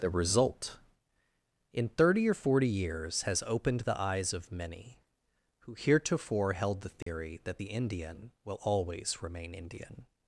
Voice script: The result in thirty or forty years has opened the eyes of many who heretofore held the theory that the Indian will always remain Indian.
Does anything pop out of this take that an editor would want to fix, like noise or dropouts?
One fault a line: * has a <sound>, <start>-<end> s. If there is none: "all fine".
* has a dropout, 7.0-7.1 s